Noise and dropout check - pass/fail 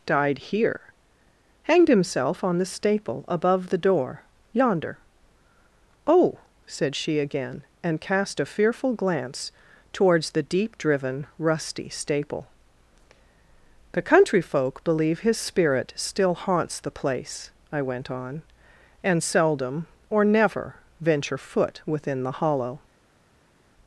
pass